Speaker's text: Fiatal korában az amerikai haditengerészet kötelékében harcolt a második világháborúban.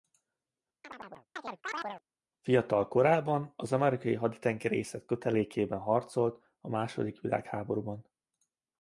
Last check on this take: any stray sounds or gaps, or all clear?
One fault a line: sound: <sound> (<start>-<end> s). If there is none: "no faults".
sound: chirp (0.8-2.0 s)